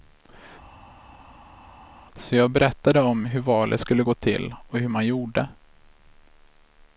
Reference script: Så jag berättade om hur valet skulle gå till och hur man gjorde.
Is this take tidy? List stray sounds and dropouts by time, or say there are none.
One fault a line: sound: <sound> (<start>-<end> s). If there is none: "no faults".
no faults